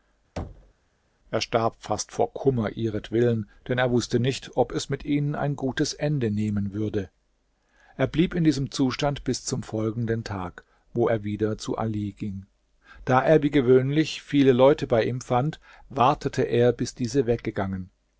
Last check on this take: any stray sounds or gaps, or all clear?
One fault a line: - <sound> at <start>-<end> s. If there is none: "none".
- thud at 0.4-0.7 s